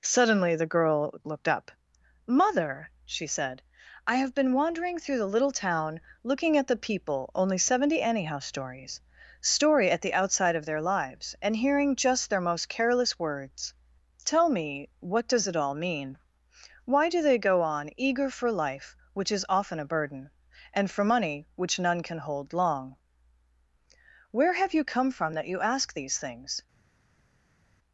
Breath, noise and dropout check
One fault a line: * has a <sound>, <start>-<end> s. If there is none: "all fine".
all fine